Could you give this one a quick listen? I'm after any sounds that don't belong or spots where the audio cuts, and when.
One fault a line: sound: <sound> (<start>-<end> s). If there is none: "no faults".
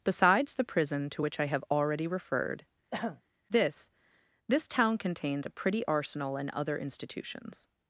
sound: throat clearing (2.9-3.2 s)